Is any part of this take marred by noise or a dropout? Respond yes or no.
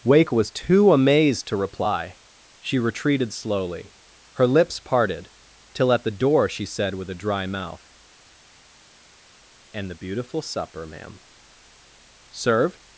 no